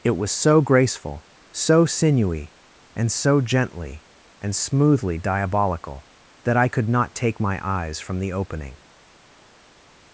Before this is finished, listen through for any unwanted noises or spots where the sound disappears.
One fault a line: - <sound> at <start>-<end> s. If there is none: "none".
none